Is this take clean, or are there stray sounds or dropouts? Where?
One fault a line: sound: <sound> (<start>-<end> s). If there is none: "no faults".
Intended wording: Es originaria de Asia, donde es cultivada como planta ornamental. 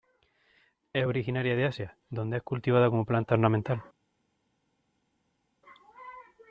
no faults